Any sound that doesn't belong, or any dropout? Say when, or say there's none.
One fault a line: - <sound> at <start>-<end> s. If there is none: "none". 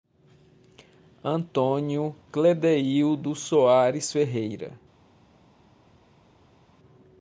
none